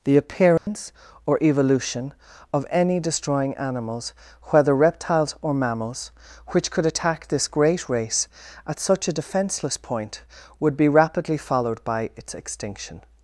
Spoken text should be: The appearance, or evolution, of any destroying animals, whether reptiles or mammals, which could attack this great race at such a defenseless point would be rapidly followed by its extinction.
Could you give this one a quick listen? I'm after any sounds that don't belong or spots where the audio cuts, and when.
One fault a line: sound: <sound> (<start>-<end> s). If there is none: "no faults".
sound: dropout (0.6-0.7 s)